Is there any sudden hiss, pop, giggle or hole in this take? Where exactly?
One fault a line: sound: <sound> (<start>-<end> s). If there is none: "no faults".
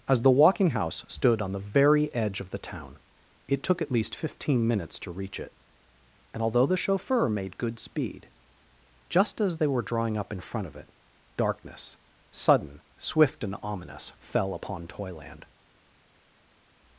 no faults